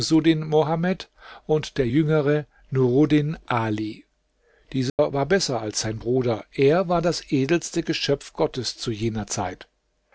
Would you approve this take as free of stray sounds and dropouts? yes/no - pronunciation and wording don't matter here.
no